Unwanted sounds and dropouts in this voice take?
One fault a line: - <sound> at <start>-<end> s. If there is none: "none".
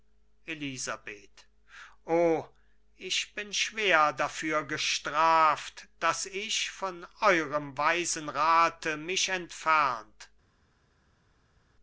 none